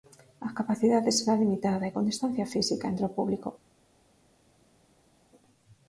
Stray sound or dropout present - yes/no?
no